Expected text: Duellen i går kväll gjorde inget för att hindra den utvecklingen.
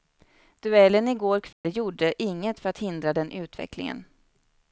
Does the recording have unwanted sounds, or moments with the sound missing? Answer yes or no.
yes